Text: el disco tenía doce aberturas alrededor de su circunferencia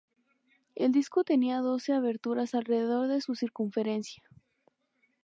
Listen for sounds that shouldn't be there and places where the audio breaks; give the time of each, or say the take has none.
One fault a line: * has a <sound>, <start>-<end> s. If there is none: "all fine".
all fine